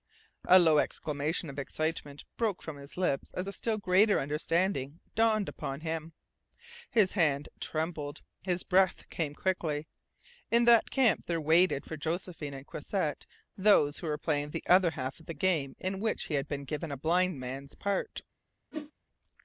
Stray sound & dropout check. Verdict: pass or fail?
fail